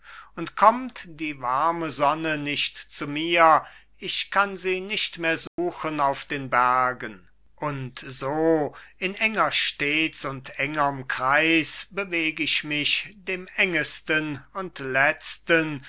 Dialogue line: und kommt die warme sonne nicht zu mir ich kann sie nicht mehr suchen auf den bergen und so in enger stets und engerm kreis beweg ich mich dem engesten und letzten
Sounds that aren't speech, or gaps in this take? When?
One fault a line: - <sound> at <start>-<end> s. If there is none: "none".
- dropout at 5.5-5.6 s